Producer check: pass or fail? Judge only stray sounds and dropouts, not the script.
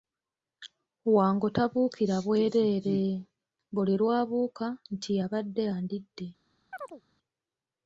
fail